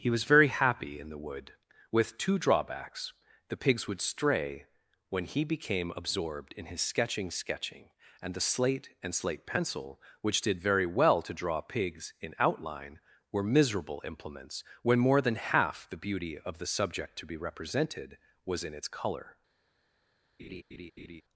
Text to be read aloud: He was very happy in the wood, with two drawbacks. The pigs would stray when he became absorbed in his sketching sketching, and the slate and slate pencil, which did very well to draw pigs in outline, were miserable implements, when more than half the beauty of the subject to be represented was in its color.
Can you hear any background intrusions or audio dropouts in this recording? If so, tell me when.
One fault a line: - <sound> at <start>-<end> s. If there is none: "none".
- laugh at 20.4-21.2 s